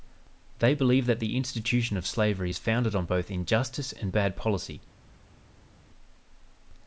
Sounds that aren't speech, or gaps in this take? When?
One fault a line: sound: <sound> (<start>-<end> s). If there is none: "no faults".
no faults